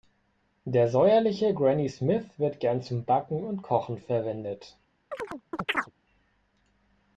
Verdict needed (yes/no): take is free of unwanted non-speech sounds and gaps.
no